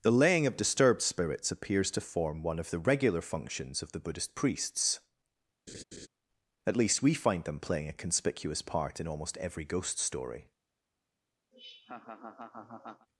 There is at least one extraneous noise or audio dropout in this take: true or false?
true